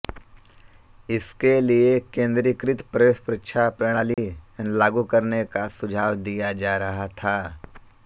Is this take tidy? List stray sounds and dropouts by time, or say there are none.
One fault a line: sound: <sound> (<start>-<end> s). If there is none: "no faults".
sound: dropout (4.1-4.2 s)